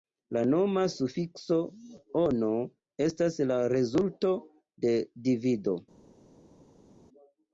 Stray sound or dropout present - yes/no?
no